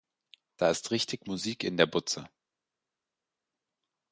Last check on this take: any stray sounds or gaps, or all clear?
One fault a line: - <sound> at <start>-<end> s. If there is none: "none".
none